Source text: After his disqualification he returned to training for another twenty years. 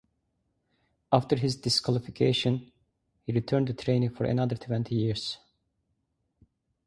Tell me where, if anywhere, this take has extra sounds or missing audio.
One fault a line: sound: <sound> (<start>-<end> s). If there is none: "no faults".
no faults